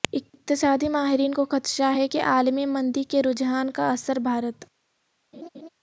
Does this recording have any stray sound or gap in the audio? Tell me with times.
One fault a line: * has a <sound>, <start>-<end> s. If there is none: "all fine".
* has a laugh, 5.3-5.7 s